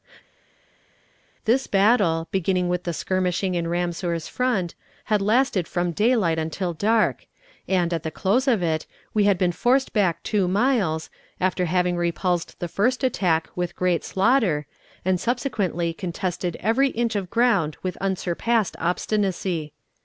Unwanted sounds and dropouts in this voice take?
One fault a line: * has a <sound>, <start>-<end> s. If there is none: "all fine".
all fine